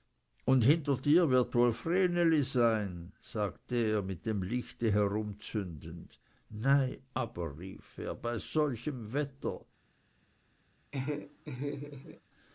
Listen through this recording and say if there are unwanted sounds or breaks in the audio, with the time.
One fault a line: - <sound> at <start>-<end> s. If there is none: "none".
- laugh at 10.9-12.2 s